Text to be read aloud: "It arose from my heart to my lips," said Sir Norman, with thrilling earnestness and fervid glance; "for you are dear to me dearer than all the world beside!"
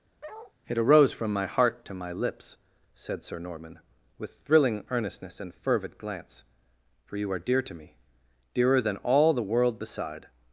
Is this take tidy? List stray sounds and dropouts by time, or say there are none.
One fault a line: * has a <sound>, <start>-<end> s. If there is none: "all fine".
* has a bark, 0.2-0.5 s